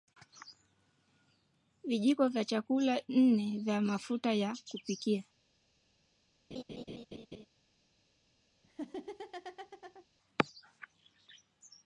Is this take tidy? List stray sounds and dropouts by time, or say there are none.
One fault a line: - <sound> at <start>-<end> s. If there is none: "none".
- laugh at 6.5-7.5 s
- laugh at 8.6-10.1 s